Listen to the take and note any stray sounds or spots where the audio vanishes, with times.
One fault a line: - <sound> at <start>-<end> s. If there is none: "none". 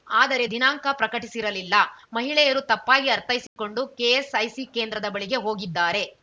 - dropout at 3.5-3.6 s